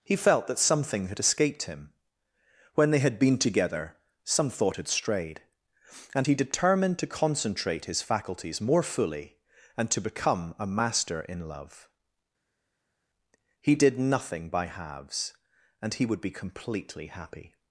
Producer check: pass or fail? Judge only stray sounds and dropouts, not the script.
pass